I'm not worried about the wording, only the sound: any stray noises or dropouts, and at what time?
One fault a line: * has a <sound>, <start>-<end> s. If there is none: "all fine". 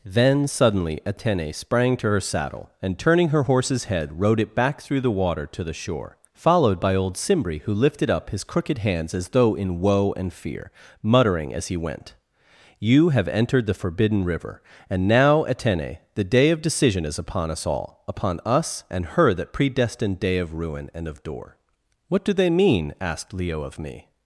all fine